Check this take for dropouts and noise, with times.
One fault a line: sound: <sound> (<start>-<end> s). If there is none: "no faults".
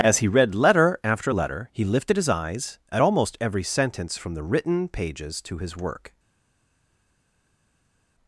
no faults